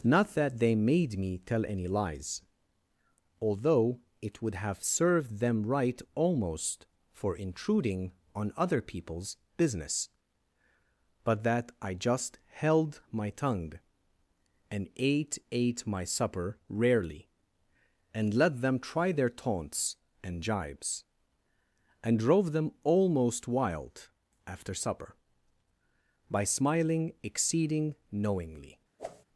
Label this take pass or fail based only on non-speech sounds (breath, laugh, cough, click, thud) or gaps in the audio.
fail